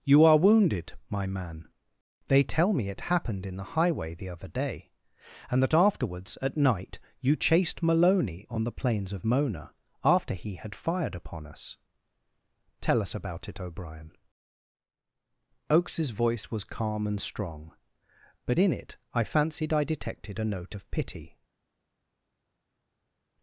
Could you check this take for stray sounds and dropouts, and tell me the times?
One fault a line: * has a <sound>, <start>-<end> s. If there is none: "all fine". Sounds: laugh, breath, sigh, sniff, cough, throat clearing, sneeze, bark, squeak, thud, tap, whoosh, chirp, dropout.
all fine